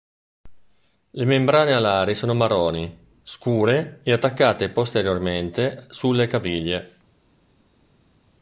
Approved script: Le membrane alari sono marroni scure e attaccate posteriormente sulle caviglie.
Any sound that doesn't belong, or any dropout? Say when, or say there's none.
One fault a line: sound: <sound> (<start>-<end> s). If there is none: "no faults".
no faults